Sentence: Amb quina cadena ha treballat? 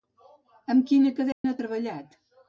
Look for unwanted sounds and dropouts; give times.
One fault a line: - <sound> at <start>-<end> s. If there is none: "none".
- dropout at 1.3-1.4 s